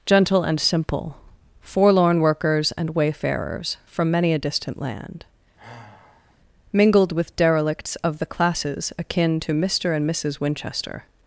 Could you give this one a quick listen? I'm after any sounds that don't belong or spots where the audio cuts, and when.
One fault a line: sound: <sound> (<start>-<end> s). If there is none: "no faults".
sound: sigh (5.6-6.4 s)